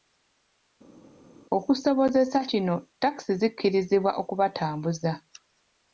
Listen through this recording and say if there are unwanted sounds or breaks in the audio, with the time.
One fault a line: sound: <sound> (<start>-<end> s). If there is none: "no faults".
no faults